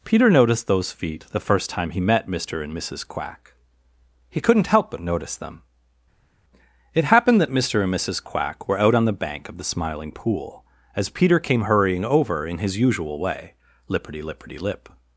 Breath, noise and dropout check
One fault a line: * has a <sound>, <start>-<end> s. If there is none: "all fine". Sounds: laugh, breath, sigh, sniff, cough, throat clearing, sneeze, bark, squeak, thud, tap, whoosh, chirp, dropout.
all fine